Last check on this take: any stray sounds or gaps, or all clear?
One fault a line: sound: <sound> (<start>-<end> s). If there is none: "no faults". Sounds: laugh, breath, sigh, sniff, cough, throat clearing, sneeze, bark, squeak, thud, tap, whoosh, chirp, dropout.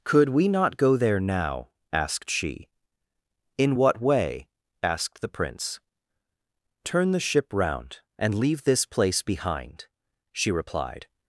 no faults